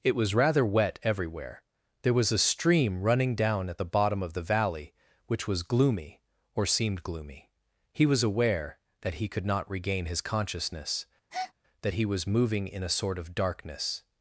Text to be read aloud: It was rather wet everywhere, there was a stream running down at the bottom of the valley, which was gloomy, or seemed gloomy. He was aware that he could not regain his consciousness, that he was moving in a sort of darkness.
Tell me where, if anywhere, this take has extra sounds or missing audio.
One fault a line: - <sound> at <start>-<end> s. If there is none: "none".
- breath at 11.3-11.5 s